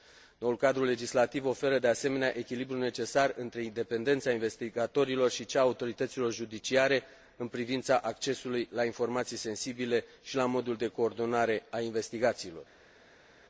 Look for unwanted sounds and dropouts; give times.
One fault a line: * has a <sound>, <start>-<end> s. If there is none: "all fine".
all fine